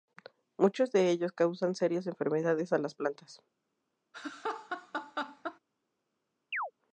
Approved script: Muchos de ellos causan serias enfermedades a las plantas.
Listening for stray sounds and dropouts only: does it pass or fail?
fail